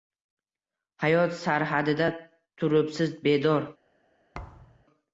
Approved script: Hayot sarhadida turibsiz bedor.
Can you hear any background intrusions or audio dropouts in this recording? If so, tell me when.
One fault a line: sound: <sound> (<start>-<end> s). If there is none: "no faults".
sound: thud (4.3-4.8 s)